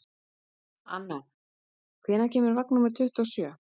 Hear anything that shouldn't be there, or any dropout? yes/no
no